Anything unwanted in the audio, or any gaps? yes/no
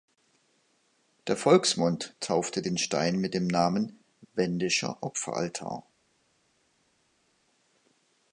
no